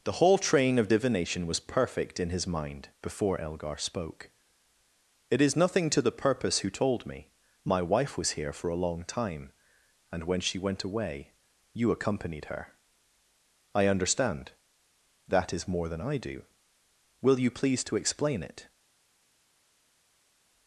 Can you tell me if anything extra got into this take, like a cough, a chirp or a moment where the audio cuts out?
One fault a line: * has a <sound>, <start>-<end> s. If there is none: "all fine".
all fine